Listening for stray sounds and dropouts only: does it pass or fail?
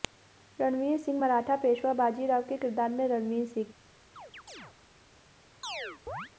fail